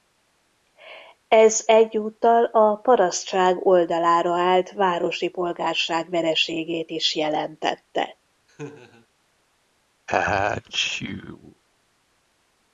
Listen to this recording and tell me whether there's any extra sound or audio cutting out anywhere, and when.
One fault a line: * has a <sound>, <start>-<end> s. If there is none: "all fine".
* has a laugh, 8.5-9.1 s
* has a sneeze, 10.1-11.6 s